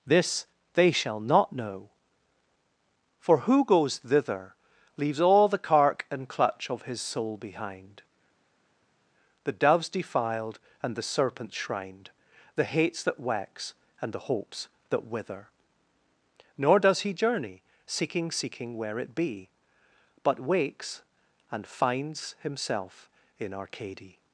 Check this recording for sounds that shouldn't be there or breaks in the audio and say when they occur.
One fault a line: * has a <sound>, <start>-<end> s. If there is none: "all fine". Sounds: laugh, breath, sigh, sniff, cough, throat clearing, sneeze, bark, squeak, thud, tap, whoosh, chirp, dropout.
all fine